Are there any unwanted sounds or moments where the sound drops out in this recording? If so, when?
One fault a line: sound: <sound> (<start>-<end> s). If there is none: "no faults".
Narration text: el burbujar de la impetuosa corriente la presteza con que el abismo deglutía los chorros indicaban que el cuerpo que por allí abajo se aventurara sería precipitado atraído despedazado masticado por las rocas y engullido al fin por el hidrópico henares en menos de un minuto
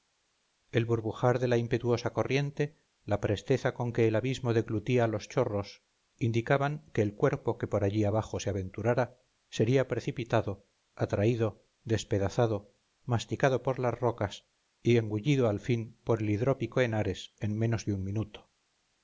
no faults